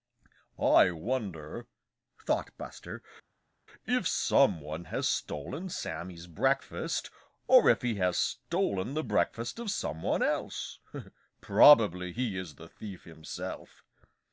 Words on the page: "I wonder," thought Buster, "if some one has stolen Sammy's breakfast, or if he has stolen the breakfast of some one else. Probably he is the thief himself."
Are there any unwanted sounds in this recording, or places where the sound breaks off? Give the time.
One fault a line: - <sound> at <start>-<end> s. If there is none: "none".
none